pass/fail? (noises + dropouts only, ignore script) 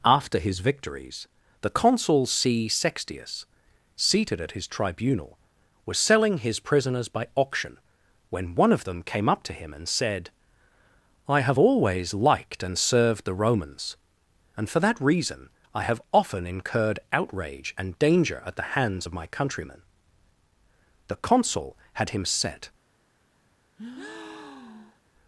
fail